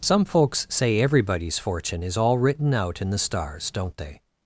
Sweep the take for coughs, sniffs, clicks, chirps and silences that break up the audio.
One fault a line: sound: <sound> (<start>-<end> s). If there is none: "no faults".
no faults